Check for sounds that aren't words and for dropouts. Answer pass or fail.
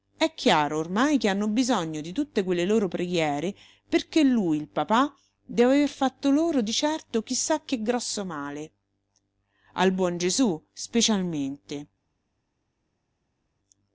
pass